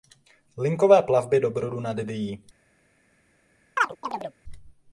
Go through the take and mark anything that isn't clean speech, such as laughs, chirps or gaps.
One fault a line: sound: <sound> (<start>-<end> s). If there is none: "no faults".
sound: chirp (3.8-4.3 s)